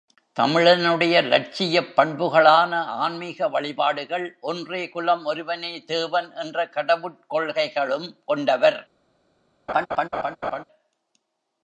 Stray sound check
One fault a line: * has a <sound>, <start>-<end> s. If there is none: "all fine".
* has a laugh, 9.7-10.6 s